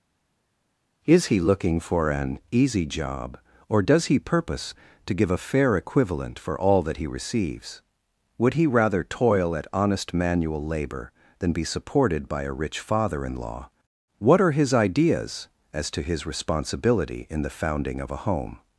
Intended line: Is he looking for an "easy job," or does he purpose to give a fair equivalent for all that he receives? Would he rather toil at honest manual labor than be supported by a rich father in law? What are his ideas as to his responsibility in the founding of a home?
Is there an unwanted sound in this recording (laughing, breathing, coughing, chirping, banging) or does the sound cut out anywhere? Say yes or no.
no